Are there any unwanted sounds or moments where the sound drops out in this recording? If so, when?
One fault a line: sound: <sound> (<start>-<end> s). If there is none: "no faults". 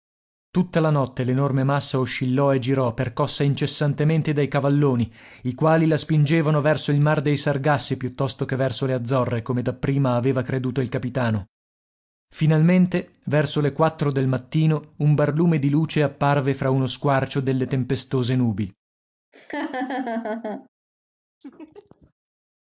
sound: laugh (19.3-20.7 s)
sound: laugh (21.4-22.1 s)